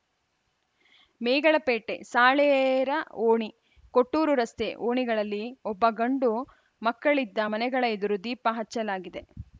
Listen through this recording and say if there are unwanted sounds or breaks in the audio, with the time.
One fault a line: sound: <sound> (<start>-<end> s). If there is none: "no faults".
no faults